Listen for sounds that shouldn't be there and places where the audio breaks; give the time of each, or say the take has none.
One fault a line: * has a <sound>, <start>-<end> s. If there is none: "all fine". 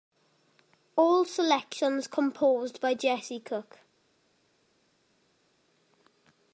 all fine